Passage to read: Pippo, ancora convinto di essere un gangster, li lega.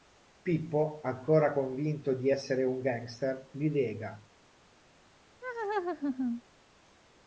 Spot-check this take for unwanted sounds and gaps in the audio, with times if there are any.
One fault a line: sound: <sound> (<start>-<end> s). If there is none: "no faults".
sound: laugh (5.4-6.4 s)